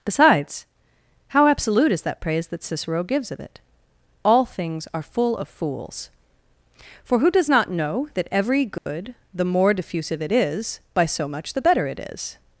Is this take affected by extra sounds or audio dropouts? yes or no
yes